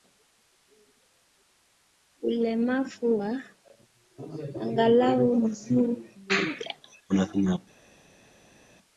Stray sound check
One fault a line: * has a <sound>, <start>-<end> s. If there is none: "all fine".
all fine